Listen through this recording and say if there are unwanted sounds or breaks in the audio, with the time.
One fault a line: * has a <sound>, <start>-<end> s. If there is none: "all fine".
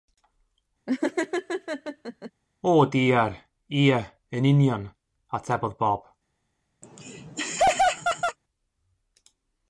* has a laugh, 0.9-2.3 s
* has a laugh, 6.8-8.4 s